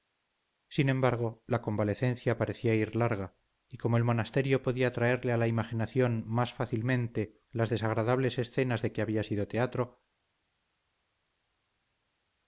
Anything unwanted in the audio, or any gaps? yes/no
no